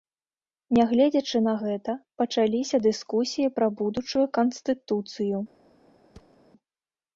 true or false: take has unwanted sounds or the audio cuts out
true